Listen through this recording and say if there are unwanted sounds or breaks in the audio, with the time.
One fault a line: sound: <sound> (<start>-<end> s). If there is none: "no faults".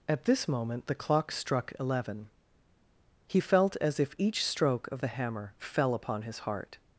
no faults